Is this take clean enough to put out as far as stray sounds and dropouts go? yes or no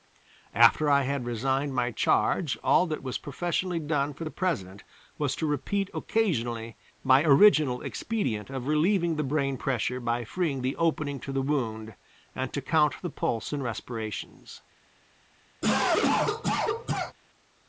no